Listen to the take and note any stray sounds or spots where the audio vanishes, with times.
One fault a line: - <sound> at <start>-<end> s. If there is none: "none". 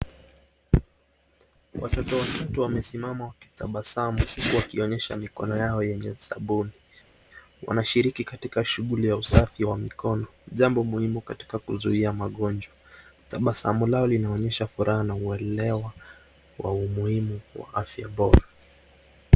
none